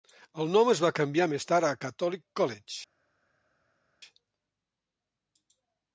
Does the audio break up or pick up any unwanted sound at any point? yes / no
no